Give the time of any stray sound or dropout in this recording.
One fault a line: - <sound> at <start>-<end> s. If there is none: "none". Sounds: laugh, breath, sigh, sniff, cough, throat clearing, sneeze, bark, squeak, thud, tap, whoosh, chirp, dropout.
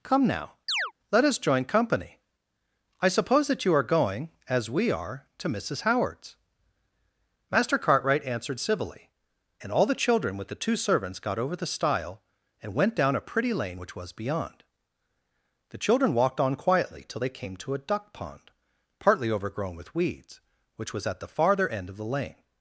- chirp at 0.7-0.9 s